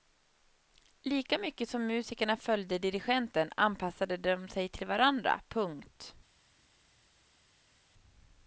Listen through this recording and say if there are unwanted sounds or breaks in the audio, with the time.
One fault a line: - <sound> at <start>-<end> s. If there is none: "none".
none